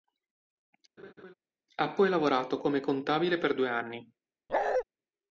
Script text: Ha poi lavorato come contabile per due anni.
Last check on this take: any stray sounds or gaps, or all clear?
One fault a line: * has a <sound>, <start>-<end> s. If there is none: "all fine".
* has a laugh, 1.0-1.3 s
* has a bark, 4.5-4.8 s